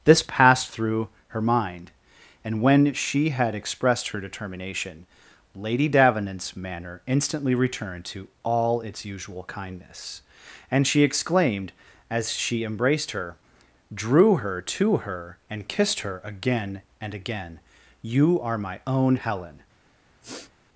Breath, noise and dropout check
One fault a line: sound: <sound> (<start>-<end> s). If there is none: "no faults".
sound: sniff (20.2-20.5 s)